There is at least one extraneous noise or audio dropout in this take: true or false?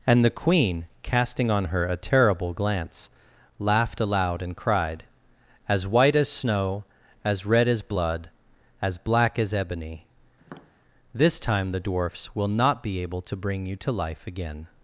true